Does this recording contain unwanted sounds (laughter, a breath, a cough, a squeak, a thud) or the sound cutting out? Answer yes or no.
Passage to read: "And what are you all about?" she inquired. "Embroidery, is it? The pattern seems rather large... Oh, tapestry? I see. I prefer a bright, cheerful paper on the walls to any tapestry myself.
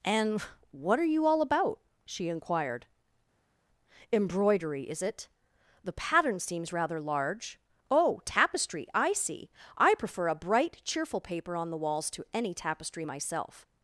no